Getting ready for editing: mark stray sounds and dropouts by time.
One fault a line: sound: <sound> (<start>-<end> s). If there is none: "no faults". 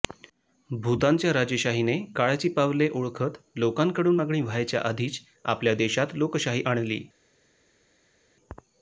no faults